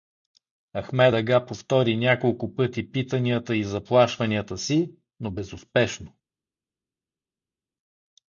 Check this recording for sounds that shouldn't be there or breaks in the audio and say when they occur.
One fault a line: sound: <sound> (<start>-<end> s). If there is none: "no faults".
no faults